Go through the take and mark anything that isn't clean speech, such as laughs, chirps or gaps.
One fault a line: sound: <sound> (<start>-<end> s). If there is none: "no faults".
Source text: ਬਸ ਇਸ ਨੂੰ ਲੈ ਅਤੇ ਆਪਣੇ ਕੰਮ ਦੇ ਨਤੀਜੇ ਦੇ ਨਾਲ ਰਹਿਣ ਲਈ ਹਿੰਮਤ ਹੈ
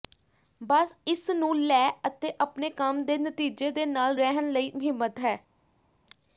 no faults